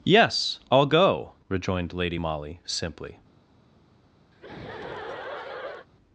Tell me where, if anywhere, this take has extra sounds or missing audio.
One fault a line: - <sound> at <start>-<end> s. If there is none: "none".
- laugh at 4.3-5.9 s